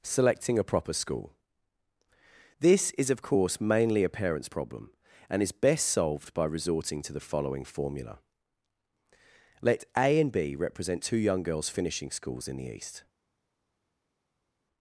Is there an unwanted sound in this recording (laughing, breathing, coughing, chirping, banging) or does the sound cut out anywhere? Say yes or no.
no